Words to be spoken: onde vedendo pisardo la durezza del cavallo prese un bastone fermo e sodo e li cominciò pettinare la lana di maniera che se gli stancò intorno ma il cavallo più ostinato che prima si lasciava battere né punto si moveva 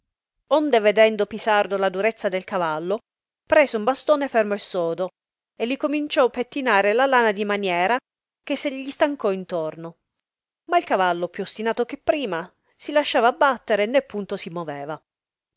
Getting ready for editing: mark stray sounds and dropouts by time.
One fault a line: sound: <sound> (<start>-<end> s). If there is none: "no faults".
no faults